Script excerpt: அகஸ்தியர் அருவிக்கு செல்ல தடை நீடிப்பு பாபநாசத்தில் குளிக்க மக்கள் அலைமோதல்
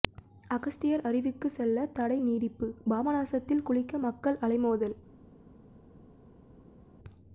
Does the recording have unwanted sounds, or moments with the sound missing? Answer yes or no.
no